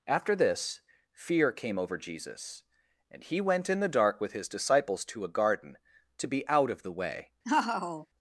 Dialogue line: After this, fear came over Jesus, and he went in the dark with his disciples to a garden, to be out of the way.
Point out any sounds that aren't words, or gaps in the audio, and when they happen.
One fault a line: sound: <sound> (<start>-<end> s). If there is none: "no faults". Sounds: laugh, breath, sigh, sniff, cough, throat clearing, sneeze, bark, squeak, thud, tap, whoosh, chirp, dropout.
sound: laugh (7.4-8.1 s)